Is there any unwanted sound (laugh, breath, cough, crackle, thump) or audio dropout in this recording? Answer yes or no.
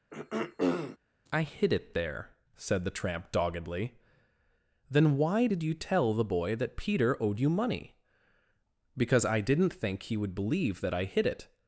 yes